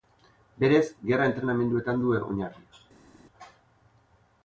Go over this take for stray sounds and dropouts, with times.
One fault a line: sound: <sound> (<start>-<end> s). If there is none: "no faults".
no faults